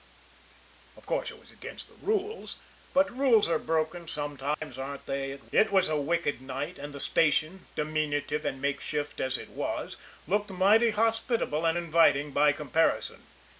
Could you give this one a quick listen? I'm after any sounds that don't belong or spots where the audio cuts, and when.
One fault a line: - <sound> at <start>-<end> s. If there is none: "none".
- dropout at 4.5-4.6 s